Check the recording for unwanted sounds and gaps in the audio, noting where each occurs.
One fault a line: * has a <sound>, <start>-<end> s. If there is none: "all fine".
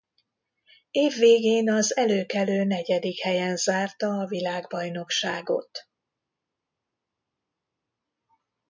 all fine